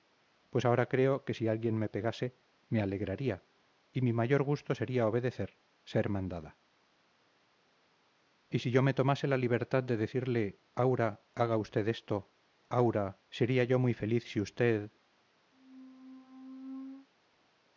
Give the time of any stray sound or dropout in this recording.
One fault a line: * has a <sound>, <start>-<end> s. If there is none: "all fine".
* has a squeak, 15.5-17.1 s